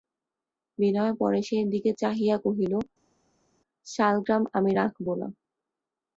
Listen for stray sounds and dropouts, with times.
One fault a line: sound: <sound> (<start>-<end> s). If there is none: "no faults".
no faults